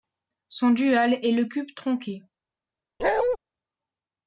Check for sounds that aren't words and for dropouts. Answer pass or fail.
fail